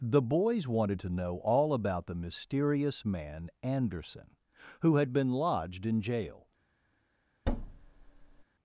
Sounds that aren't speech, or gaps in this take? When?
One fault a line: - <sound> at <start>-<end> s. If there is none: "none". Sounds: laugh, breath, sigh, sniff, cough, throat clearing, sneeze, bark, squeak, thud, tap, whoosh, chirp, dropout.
- thud at 7.5-8.4 s